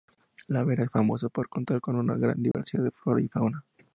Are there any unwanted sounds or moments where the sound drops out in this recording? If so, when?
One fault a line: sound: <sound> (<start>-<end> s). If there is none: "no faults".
sound: dropout (2.5-2.5 s)